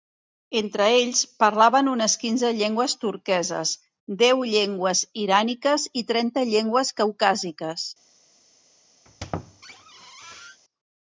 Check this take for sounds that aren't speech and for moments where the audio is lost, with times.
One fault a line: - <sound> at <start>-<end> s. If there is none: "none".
- squeak at 9.0-10.6 s